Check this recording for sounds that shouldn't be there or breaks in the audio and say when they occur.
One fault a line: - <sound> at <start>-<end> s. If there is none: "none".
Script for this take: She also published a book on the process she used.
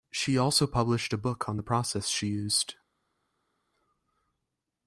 none